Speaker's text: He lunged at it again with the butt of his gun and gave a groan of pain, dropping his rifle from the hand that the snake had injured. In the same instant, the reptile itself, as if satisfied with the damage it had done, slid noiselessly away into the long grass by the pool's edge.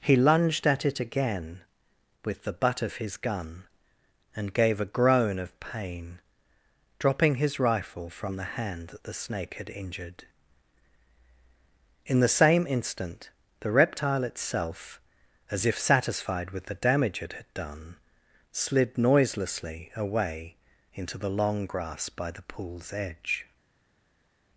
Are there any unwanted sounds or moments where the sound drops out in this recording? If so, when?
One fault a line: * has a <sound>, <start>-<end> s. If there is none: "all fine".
all fine